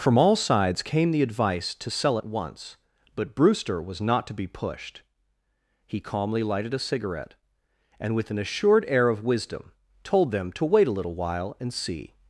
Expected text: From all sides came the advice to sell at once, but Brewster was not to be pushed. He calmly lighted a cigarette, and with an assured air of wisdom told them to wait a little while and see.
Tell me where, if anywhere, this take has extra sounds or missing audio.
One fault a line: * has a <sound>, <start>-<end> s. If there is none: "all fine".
all fine